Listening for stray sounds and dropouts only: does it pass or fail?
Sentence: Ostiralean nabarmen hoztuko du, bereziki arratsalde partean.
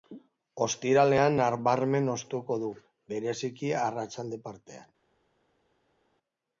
pass